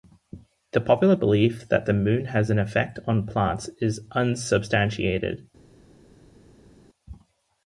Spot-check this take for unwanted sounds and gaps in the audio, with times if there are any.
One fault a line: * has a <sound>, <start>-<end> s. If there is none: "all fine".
all fine